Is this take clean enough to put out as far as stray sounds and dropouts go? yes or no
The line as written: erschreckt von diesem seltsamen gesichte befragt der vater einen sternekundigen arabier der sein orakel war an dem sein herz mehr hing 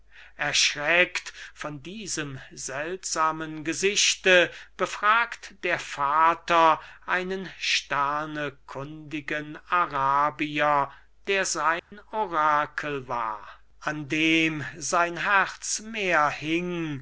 no